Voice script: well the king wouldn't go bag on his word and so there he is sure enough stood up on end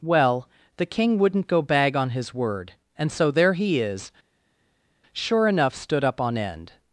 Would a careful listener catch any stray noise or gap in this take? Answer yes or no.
no